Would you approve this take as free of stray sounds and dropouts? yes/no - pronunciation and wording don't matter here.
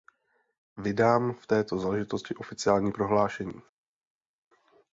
yes